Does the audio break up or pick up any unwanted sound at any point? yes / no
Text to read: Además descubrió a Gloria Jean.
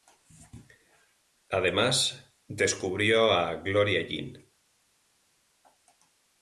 no